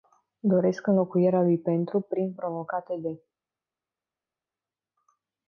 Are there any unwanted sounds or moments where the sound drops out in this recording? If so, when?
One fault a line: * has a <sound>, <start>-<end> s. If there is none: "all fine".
all fine